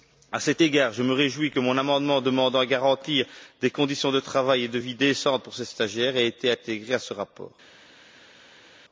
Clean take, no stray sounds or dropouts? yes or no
yes